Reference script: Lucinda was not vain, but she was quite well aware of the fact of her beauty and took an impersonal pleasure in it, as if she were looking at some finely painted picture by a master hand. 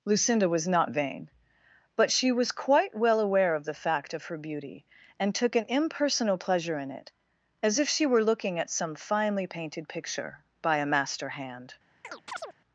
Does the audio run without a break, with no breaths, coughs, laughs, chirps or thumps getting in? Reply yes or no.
no